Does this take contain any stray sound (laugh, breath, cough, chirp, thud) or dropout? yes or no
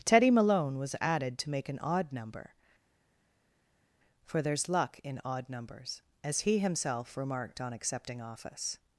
no